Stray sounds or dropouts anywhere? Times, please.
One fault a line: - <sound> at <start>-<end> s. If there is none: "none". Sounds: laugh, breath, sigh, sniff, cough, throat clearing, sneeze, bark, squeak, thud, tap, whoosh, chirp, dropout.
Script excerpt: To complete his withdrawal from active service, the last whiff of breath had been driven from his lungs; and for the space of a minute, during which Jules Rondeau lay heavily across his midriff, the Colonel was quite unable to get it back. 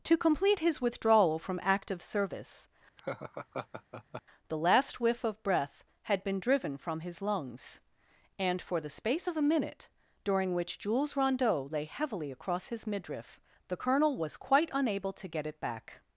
- laugh at 3.0-4.2 s